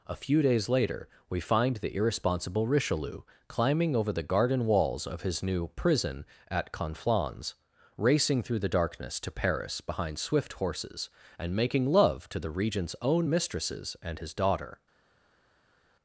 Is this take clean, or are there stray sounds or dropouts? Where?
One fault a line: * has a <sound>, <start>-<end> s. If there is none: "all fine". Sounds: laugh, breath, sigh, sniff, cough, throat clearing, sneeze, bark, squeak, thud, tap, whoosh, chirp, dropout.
all fine